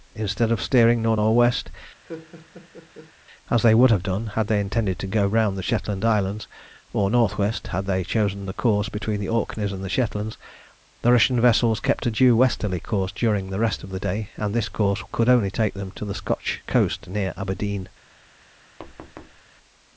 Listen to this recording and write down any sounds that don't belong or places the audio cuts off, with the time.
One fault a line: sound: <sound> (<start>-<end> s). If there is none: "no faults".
sound: laugh (2.1-3.1 s)
sound: thud (18.8-19.4 s)